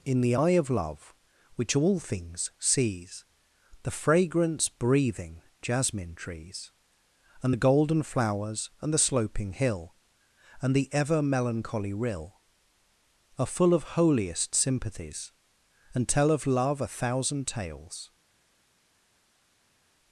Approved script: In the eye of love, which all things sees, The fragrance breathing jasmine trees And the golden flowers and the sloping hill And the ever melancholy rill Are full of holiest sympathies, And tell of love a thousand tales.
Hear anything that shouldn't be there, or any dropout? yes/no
no